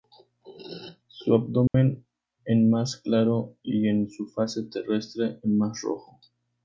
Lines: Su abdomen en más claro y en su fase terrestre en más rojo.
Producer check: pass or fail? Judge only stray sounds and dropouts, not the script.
fail